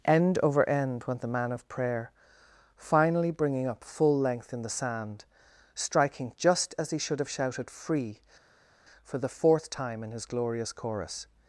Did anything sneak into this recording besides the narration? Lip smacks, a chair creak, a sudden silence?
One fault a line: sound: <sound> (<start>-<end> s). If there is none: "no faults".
no faults